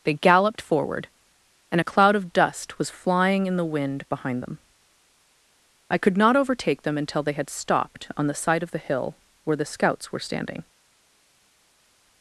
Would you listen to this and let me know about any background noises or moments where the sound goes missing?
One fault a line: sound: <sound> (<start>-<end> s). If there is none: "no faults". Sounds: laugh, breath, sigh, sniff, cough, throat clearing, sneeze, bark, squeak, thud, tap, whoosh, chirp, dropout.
no faults